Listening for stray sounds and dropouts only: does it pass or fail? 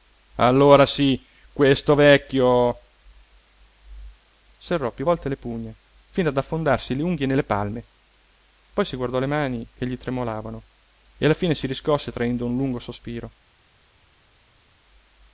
pass